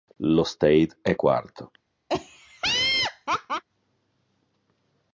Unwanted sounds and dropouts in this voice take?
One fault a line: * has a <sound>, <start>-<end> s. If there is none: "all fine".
* has a laugh, 2.1-3.6 s